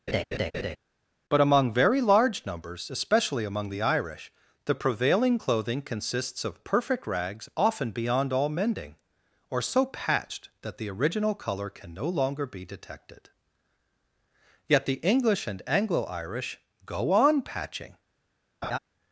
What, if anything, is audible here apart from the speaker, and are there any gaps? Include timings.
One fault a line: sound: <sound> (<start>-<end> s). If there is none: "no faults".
sound: laugh (0.1-0.8 s)
sound: laugh (18.6-18.8 s)